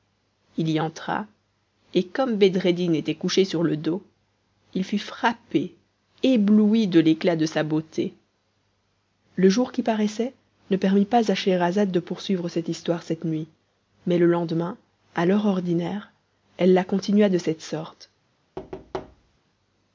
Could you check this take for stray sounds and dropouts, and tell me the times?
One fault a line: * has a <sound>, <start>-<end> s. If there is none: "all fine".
* has a thud, 18.6-19.4 s